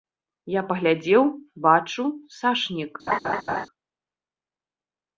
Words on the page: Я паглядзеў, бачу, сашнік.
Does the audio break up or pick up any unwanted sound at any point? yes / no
yes